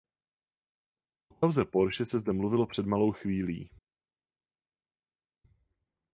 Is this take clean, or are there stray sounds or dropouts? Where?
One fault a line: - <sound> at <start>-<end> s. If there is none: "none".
none